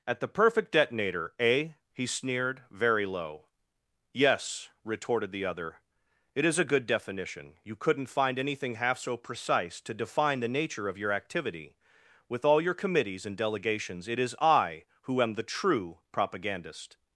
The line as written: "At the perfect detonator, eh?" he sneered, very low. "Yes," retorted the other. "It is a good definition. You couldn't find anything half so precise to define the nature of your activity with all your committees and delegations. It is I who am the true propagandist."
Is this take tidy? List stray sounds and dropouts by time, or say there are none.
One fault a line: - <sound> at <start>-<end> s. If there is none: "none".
none